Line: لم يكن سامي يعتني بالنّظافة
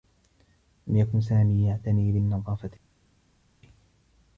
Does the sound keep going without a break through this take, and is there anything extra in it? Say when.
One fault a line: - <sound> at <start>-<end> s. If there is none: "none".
none